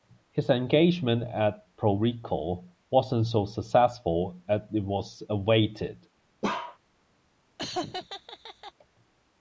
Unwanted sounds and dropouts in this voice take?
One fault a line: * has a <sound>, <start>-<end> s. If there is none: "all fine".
* has a bark, 6.4-6.8 s
* has a laugh, 7.6-8.7 s